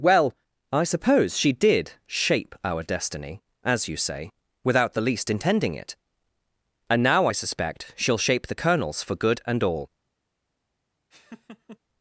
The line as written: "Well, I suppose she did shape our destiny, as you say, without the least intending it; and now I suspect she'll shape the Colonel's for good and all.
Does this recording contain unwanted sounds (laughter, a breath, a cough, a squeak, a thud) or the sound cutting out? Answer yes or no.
yes